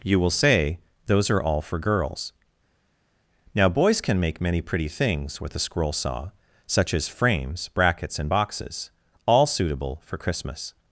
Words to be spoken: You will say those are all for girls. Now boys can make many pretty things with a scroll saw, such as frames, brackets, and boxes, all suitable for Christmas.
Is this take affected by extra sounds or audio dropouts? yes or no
no